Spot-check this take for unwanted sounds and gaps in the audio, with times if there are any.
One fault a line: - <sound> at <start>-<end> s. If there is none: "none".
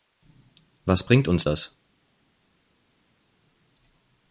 none